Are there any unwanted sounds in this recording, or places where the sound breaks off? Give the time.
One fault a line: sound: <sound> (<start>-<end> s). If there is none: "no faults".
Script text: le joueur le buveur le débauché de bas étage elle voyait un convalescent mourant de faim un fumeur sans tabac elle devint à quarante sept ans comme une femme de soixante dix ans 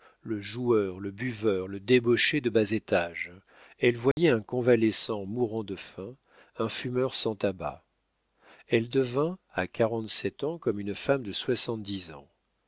sound: dropout (4.1-4.2 s)